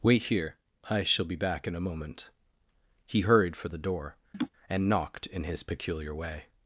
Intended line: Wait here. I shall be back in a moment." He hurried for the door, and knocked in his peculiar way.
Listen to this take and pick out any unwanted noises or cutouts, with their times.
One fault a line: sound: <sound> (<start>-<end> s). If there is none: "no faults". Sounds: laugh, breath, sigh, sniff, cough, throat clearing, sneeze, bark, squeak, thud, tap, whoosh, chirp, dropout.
sound: laugh (4.3-4.5 s)